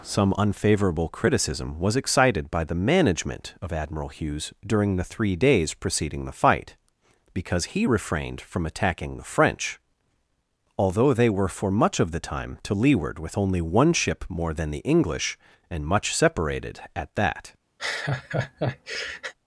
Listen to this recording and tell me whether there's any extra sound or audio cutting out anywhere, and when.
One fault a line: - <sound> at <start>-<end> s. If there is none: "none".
- laugh at 17.8-19.3 s